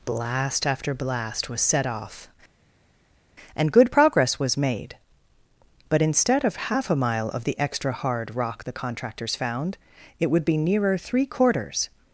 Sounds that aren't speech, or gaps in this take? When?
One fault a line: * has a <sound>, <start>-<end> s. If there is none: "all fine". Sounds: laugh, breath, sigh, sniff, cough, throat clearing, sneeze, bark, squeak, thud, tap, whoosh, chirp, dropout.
all fine